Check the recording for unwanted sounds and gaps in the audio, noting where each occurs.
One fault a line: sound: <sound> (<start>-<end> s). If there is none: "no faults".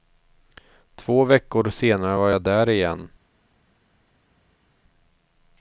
no faults